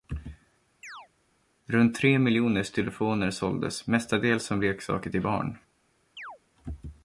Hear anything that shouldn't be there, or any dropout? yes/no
yes